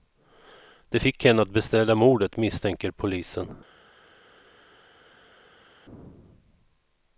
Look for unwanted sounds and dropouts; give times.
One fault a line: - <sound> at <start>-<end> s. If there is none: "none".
none